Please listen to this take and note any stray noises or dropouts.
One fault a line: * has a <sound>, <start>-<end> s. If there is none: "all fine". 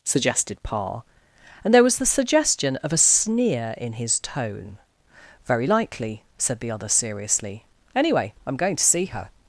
all fine